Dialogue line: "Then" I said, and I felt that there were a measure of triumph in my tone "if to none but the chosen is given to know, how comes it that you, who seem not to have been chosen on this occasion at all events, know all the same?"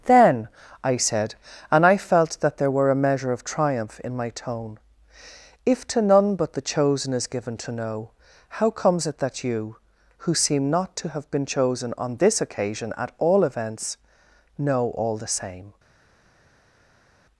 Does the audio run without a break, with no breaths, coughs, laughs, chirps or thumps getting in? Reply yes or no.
yes